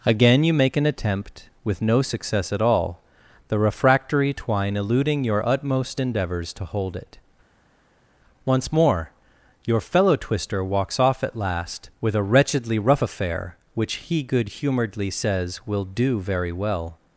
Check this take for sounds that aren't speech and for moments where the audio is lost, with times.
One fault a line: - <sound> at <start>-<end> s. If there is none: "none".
none